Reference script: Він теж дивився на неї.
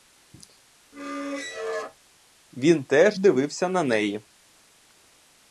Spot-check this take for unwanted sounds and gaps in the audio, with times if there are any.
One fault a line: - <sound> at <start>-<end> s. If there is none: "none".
- squeak at 0.9-2.0 s